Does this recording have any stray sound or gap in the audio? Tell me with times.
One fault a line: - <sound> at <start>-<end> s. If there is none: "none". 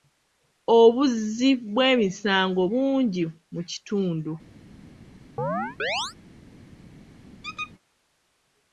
- chirp at 5.4-6.1 s
- squeak at 7.4-7.7 s